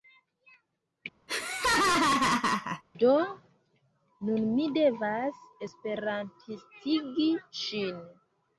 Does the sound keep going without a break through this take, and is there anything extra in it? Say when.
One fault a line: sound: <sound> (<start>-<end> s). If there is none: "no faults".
sound: laugh (1.3-2.8 s)